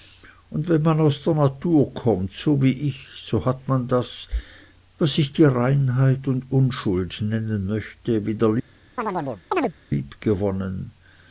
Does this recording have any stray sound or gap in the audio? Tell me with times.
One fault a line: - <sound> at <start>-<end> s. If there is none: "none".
- chirp at 9.0-9.7 s